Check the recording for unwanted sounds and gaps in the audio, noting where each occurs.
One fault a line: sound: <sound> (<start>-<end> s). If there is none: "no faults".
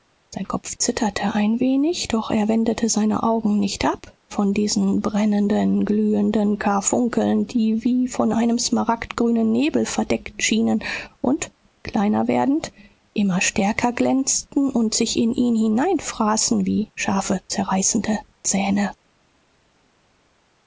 no faults